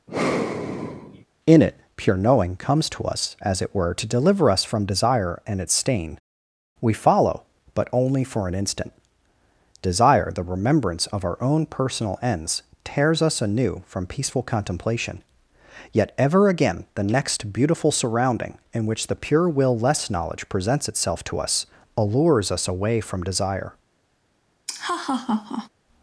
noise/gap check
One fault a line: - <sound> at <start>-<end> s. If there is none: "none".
- sigh at 0.1-1.3 s
- laugh at 24.7-25.7 s